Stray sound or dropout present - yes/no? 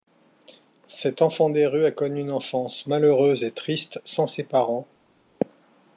no